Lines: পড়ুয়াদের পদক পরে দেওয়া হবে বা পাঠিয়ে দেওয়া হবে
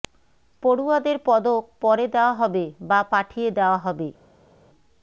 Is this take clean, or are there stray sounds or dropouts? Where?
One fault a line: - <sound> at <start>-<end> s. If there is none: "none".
none